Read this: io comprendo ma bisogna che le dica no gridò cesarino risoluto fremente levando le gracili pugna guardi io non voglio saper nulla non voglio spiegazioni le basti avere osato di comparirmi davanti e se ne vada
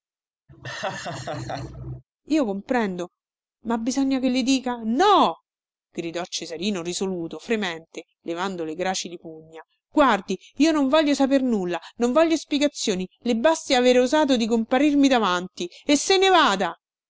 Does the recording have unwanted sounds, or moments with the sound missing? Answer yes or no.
yes